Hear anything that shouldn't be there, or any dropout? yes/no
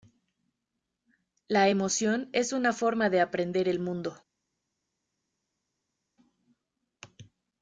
no